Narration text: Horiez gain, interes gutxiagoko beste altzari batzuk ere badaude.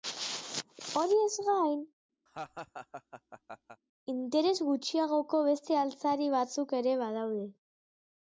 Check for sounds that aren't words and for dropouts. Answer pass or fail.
fail